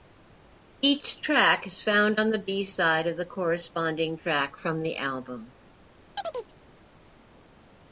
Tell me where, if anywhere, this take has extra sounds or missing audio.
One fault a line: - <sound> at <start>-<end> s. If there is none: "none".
- chirp at 6.2-6.5 s